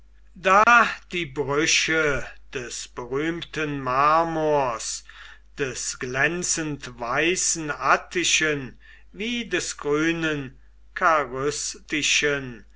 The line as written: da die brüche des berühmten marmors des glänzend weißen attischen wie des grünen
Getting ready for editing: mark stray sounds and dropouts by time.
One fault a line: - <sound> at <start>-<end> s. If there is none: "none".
- dropout at 0.6-0.7 s